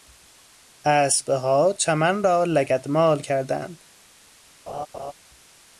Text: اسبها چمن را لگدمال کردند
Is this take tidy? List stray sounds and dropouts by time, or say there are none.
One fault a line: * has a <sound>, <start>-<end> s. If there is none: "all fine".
* has a laugh, 4.7-5.1 s